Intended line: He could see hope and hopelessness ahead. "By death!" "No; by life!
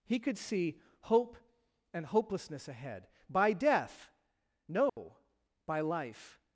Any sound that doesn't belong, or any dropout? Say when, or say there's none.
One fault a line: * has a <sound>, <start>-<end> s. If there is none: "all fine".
* has a dropout, 4.9-5.0 s